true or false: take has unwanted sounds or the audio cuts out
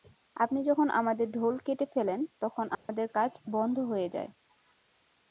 true